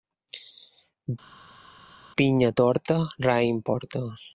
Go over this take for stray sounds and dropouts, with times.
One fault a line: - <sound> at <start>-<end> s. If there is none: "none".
none